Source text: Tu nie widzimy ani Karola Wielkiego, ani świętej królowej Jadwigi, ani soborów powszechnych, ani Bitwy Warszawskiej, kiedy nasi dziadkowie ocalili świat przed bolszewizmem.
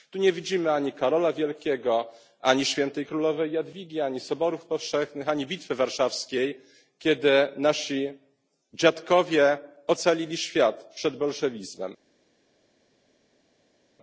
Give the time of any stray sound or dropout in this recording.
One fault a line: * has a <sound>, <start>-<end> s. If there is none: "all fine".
all fine